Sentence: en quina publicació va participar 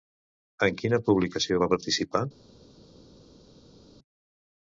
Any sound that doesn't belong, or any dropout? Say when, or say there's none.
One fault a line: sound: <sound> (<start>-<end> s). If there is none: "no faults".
no faults